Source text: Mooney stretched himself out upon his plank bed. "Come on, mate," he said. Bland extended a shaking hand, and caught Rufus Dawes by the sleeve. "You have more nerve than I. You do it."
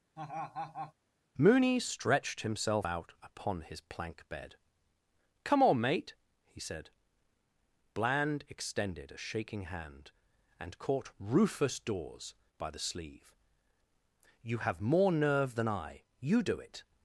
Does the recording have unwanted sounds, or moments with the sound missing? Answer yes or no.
yes